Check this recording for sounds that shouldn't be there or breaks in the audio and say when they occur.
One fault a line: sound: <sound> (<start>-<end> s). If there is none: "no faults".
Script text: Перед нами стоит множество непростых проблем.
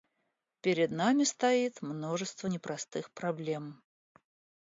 no faults